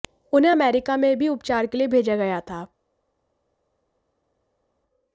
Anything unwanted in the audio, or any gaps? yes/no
no